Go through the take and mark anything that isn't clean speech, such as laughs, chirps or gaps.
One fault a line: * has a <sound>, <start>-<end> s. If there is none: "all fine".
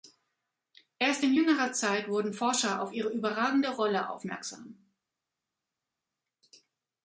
all fine